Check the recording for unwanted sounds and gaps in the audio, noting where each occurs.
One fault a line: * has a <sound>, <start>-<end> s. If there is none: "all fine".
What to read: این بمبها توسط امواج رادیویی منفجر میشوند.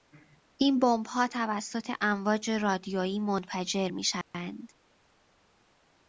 * has a dropout, 4.2-4.3 s